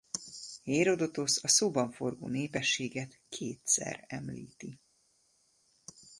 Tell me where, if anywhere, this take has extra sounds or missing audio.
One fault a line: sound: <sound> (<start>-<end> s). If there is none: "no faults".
no faults